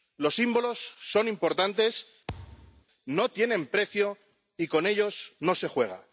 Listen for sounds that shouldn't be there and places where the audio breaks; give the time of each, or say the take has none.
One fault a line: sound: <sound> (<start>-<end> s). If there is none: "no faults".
sound: thud (2.3-2.8 s)